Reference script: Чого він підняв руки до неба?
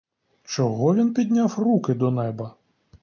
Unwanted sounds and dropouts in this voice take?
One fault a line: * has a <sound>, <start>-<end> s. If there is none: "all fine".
all fine